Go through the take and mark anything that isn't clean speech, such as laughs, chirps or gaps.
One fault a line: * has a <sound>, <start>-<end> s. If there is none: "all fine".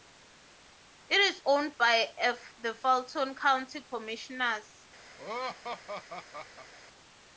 * has a laugh, 5.2-6.7 s